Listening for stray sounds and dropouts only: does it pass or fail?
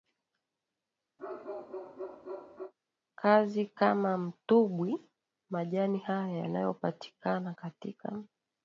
fail